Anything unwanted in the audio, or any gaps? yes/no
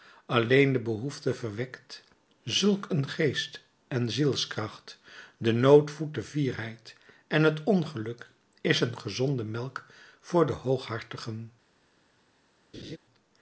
yes